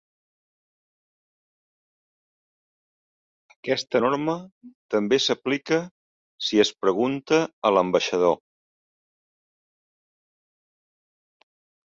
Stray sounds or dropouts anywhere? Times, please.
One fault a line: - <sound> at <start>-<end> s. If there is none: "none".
none